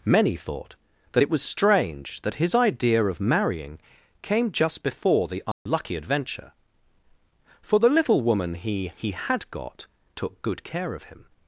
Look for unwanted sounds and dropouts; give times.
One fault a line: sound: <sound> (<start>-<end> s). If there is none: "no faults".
sound: dropout (5.5-5.7 s)